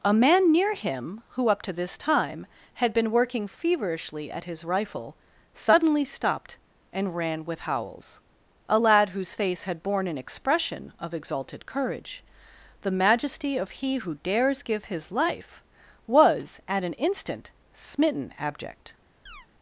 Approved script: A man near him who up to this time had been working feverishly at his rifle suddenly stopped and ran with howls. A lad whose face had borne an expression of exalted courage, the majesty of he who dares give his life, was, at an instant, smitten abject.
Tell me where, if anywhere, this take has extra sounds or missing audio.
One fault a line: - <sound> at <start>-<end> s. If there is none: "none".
- chirp at 19.3-19.5 s